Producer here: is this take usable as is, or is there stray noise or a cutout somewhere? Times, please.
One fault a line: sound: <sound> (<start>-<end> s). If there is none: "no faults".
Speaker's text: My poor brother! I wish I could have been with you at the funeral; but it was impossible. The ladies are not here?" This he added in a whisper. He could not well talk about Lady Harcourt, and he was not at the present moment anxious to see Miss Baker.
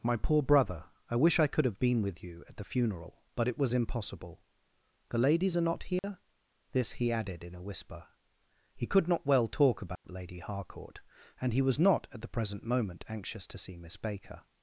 sound: dropout (6.0-6.0 s)
sound: dropout (10.0-10.0 s)